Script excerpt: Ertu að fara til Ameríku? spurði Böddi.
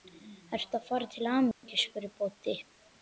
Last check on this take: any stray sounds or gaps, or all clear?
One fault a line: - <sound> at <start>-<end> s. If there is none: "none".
- dropout at 1.5-1.6 s